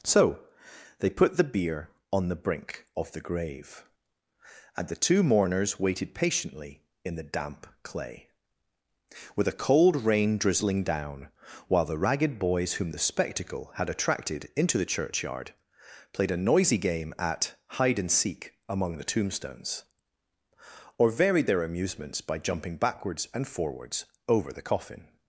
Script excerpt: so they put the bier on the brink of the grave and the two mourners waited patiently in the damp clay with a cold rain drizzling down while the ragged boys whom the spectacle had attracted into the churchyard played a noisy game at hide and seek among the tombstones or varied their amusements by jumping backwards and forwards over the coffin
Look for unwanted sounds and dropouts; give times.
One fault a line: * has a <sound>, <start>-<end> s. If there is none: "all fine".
all fine